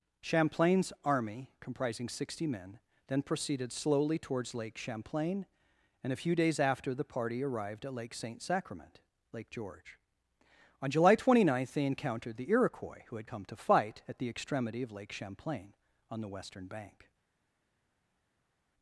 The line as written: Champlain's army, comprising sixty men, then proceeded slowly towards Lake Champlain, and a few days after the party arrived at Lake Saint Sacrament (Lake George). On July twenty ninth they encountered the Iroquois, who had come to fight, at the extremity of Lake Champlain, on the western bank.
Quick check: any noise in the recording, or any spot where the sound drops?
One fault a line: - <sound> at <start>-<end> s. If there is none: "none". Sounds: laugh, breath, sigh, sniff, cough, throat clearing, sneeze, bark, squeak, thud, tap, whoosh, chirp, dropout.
none